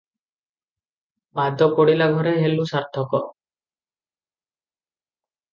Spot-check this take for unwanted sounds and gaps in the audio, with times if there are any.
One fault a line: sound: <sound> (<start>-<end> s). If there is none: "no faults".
no faults